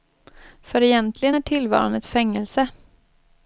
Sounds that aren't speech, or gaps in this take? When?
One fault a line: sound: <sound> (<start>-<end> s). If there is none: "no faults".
no faults